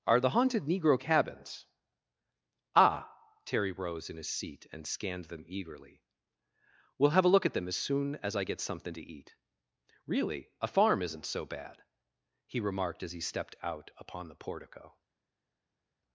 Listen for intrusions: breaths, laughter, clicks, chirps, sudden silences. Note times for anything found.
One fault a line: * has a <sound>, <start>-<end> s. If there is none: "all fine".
all fine